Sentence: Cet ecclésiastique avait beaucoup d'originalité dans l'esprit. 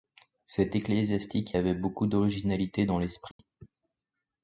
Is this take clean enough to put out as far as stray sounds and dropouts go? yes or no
no